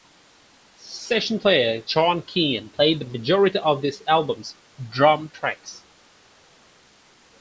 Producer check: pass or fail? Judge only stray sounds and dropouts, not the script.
pass